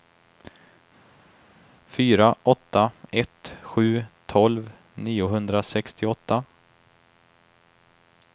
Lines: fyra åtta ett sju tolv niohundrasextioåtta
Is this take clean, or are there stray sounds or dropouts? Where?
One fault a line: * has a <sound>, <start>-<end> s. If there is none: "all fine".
all fine